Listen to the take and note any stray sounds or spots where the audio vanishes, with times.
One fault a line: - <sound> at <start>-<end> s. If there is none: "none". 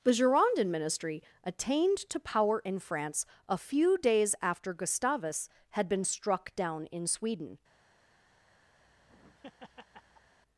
- laugh at 8.8-10.3 s